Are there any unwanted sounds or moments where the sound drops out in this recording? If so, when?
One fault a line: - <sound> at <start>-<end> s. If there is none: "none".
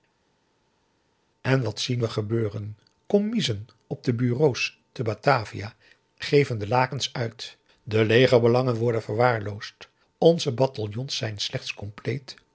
none